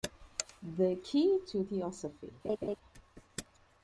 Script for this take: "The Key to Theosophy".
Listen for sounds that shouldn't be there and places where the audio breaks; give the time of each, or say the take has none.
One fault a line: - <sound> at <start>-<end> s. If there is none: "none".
- laugh at 2.4-2.8 s